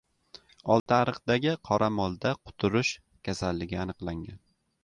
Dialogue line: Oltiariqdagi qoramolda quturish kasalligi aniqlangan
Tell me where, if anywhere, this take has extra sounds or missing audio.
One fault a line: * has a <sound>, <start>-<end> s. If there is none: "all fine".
* has a dropout, 0.8-0.9 s